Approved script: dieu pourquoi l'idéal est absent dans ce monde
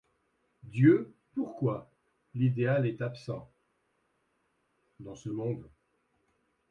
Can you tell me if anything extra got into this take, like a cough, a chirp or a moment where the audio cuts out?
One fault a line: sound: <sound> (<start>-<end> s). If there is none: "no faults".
no faults